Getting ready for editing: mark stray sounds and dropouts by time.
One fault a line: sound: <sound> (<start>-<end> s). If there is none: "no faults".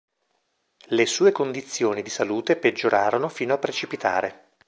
no faults